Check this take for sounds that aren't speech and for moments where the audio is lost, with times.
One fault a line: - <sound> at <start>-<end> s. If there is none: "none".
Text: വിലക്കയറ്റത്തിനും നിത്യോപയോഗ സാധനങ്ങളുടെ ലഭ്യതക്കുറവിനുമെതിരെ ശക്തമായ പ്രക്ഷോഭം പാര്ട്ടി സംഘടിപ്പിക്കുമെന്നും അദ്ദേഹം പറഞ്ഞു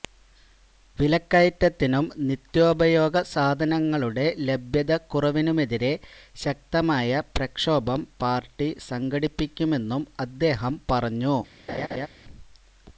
- laugh at 11.7-12.1 s